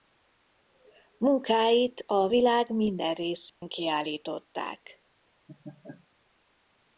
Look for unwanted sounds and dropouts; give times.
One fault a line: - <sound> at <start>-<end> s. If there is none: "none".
- dropout at 3.5-3.6 s
- laugh at 5.5-6.1 s